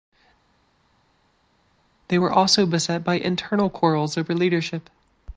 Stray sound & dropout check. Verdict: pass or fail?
pass